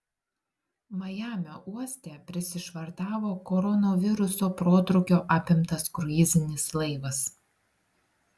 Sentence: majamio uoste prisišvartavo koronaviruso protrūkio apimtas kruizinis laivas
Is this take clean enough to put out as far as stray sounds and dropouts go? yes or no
yes